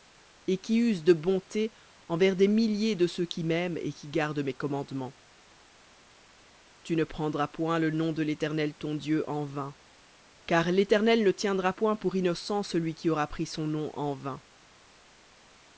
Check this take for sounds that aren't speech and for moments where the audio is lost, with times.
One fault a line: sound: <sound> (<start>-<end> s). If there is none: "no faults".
no faults